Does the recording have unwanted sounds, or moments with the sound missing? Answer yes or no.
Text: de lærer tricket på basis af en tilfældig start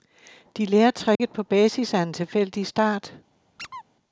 yes